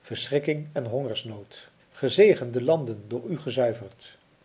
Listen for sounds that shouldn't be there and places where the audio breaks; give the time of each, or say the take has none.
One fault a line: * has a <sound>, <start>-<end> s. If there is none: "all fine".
all fine